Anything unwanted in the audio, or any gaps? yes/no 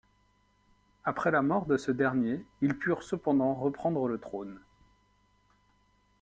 no